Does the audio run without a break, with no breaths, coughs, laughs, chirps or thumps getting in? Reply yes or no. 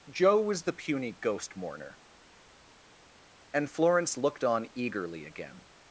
yes